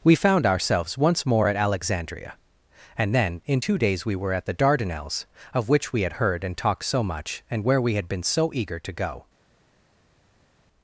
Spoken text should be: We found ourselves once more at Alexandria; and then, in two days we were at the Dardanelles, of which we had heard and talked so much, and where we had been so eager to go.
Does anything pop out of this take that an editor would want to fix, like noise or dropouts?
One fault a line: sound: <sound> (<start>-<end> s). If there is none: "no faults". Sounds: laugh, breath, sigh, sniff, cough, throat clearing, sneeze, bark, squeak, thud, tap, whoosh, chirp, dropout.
no faults